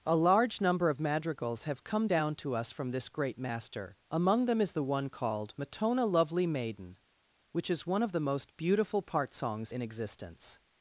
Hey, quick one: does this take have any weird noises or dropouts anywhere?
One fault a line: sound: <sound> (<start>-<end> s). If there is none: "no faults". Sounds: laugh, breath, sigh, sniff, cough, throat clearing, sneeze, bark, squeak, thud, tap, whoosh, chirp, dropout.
no faults